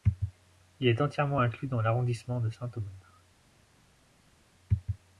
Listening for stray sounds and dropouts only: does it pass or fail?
pass